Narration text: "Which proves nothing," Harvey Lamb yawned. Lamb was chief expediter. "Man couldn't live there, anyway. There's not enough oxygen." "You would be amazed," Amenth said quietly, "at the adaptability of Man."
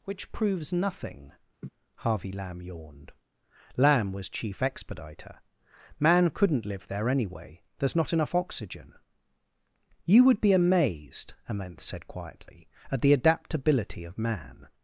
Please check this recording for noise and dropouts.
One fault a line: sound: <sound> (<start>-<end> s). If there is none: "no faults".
sound: laugh (1.6-1.7 s)